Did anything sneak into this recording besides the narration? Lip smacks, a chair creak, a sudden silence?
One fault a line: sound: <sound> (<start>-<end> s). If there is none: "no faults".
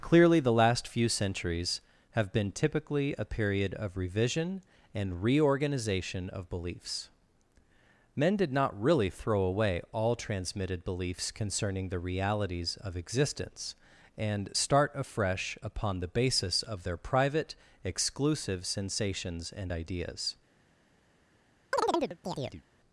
sound: chirp (21.7-22.6 s)